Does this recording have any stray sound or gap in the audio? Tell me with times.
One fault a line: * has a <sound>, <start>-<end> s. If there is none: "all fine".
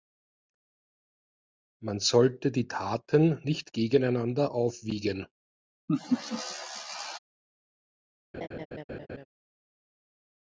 * has a laugh, 5.9-7.2 s
* has a laugh, 8.3-9.3 s